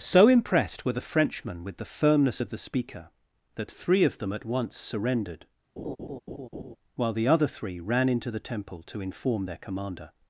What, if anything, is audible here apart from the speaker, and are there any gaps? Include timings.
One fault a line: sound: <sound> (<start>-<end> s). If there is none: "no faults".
sound: laugh (5.8-6.8 s)